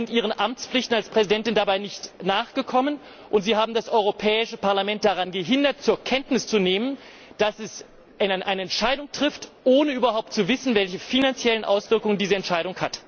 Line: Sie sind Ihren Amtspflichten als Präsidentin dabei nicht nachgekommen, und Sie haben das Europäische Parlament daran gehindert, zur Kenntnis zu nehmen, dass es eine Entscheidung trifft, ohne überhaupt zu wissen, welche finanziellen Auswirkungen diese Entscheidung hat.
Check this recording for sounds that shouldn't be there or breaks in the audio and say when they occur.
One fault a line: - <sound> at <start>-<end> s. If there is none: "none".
none